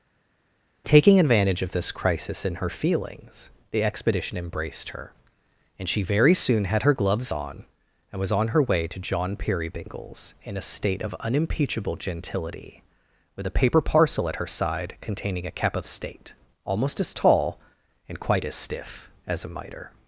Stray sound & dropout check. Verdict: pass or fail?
pass